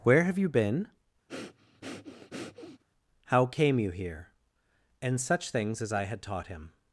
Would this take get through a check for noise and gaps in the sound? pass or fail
fail